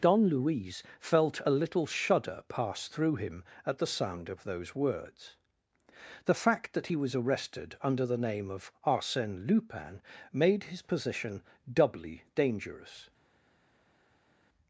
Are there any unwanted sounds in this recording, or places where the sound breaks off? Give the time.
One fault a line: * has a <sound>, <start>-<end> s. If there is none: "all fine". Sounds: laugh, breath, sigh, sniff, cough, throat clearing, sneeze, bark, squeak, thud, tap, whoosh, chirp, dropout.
all fine